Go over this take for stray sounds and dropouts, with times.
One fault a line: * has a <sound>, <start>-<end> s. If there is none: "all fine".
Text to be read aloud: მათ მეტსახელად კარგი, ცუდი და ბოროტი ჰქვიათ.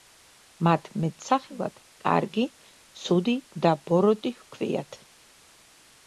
all fine